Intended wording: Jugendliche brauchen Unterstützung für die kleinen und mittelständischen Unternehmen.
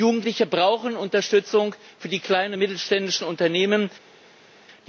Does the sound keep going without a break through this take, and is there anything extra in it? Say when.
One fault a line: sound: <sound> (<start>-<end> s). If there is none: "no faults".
no faults